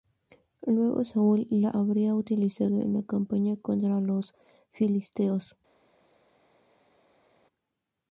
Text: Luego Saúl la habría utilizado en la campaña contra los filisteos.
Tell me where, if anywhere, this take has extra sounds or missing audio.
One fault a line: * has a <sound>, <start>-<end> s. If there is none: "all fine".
all fine